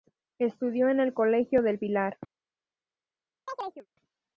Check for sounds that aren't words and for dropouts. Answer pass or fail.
fail